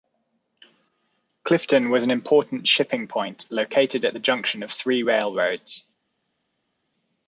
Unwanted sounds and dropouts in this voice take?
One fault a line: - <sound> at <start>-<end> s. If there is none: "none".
none